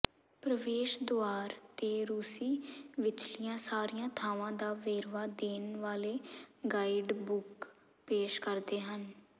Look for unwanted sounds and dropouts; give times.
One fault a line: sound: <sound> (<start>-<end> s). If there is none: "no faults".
no faults